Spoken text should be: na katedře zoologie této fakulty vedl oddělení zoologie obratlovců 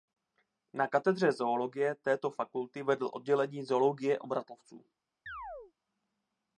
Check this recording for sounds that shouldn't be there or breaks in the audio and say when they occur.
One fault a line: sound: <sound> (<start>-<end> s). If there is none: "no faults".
sound: chirp (5.3-5.7 s)